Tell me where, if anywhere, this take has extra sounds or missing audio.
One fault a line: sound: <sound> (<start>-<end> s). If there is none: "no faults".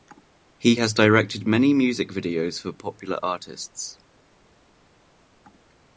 no faults